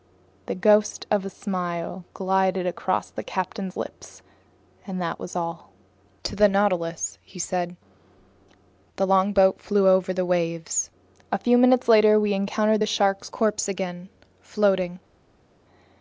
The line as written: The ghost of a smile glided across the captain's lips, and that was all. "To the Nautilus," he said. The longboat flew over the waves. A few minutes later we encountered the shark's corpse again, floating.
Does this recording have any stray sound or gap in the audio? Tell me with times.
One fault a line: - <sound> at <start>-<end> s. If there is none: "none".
none